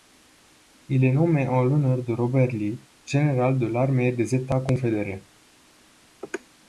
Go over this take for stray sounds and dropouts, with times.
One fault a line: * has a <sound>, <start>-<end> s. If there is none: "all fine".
all fine